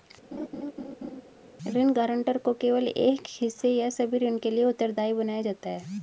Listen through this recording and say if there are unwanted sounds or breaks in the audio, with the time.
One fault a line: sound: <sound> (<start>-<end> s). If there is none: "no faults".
sound: laugh (0.3-1.2 s)